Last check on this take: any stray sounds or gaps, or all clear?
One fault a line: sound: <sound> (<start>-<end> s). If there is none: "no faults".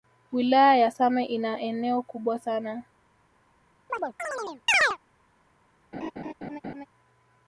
sound: chirp (3.9-5.0 s)
sound: laugh (5.9-6.9 s)